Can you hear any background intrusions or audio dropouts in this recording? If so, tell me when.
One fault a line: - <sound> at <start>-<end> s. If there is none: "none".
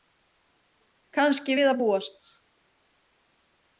none